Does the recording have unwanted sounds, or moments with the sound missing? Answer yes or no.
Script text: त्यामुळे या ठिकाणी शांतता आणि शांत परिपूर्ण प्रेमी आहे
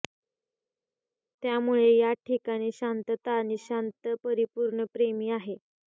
no